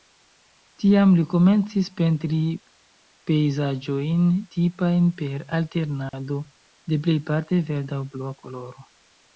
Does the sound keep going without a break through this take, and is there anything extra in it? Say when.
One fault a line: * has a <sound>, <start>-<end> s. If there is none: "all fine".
* has a dropout, 6.1-6.1 s